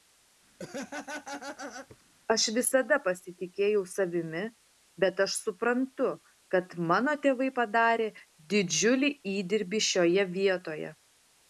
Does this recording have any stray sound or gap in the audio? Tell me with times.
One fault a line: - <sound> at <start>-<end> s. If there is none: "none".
- laugh at 0.6-2.0 s